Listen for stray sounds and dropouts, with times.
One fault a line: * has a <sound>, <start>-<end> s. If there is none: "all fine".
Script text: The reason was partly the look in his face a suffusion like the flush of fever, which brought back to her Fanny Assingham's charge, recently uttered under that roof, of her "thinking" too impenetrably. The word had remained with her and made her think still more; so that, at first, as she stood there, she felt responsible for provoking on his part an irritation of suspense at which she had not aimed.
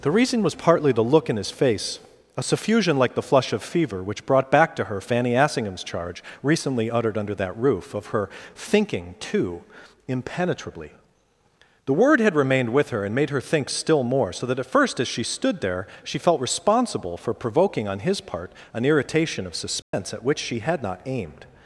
* has a dropout, 19.8-19.9 s